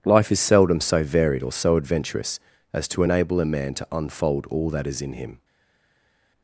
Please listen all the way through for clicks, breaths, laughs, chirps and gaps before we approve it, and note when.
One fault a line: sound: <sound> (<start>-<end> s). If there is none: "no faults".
no faults